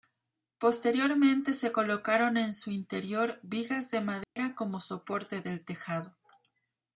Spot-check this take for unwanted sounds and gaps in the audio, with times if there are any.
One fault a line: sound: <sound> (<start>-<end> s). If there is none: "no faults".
sound: dropout (4.2-4.4 s)